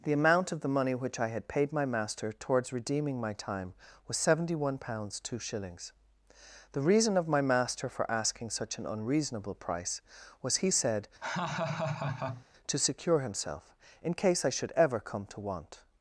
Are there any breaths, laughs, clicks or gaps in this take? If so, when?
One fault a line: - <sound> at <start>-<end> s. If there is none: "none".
- laugh at 11.2-12.5 s